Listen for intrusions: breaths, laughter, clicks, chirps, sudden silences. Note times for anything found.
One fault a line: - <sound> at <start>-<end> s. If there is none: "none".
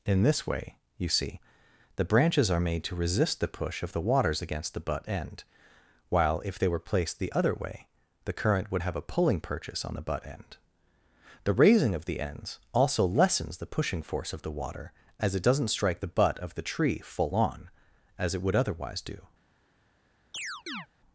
- chirp at 20.3-20.9 s